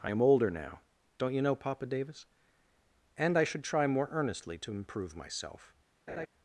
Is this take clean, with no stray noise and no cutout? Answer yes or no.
no